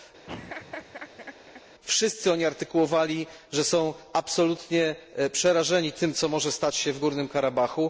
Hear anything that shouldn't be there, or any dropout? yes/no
yes